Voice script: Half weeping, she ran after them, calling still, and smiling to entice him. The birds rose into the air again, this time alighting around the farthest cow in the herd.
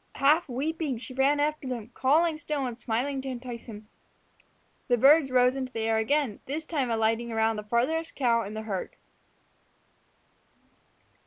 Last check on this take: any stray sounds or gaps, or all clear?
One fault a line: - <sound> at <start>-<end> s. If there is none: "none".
none